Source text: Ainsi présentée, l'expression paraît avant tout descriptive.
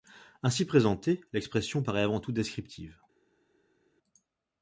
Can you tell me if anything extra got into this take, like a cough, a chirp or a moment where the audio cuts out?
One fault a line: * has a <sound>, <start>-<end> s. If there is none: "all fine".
all fine